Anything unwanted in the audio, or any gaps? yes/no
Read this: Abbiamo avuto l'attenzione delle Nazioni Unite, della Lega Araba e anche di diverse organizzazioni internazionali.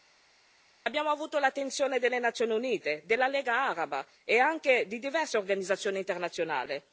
no